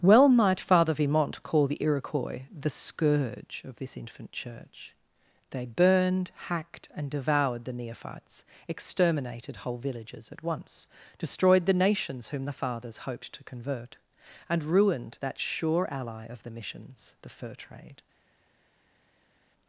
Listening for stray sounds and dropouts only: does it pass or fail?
pass